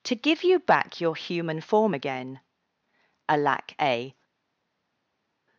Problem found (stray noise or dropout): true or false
false